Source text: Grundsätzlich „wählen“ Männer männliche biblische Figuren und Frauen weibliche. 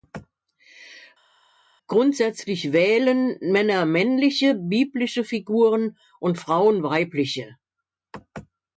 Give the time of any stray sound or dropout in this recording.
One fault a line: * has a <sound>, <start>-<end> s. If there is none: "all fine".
all fine